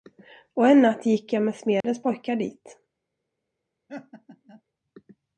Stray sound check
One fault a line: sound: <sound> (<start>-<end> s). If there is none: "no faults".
sound: dropout (1.8-1.8 s)
sound: laugh (3.9-4.6 s)